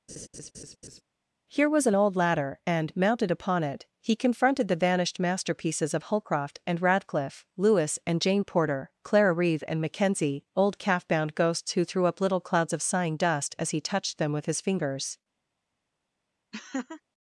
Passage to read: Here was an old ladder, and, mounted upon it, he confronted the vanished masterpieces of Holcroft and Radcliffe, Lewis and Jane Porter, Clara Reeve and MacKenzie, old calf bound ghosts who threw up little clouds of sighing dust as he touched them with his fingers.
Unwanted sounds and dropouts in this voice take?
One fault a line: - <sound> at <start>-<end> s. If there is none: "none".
- laugh at 0.1-1.0 s
- laugh at 16.5-17.0 s